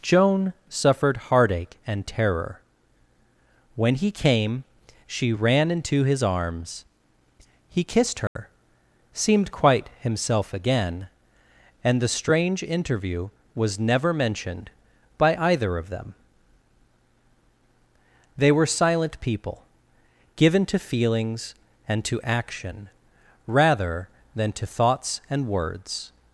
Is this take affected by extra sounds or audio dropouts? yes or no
yes